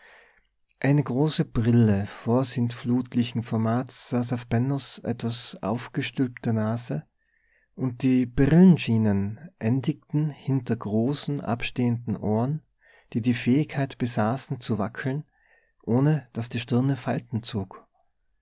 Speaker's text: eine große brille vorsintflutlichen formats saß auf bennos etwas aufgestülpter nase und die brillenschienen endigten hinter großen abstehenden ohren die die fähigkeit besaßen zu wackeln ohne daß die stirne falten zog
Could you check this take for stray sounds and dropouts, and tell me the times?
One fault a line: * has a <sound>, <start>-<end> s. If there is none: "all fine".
all fine